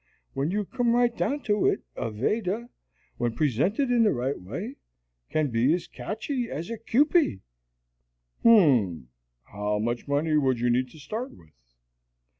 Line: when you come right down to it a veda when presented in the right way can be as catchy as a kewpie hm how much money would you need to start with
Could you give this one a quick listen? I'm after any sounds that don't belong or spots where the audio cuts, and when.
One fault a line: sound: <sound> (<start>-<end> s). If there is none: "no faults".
no faults